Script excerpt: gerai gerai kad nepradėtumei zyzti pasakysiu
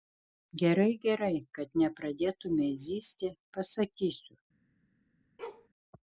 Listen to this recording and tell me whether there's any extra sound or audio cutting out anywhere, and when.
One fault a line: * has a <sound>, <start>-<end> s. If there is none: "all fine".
* has a bark, 5.4-5.7 s